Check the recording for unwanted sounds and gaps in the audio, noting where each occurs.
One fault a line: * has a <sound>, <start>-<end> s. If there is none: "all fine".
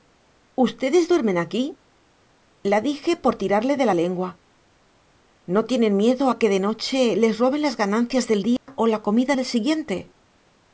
* has a dropout, 8.6-8.7 s